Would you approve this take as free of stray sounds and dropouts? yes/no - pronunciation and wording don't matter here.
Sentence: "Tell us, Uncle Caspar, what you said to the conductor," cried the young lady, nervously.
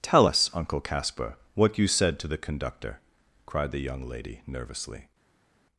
yes